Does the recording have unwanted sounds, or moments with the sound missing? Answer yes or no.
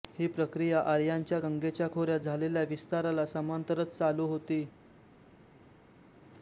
no